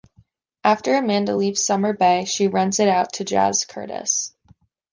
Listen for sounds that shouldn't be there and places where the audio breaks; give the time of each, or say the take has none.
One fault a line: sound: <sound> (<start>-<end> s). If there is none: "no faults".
no faults